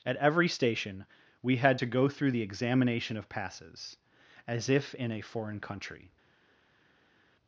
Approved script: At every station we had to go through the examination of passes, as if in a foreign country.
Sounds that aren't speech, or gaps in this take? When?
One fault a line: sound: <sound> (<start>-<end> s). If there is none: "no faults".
no faults